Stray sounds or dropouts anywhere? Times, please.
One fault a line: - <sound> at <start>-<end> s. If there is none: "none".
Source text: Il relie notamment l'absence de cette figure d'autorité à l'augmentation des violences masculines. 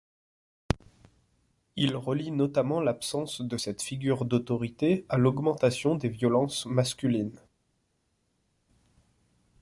none